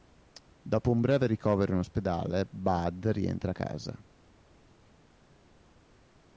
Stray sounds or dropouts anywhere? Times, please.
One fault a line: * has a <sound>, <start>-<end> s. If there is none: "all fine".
all fine